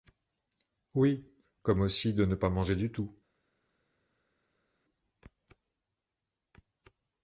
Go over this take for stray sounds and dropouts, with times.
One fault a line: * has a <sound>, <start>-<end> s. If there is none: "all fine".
all fine